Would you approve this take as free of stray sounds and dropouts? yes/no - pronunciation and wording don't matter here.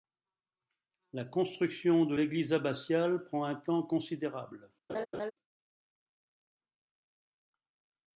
no